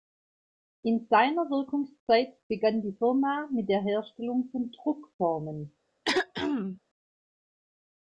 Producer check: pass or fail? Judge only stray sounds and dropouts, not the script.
fail